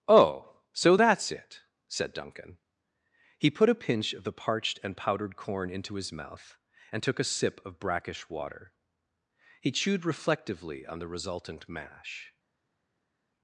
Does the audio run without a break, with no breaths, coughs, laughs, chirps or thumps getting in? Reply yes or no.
yes